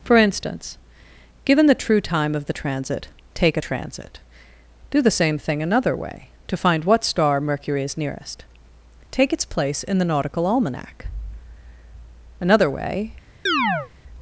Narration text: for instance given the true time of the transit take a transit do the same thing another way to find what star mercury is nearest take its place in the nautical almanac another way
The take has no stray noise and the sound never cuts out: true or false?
false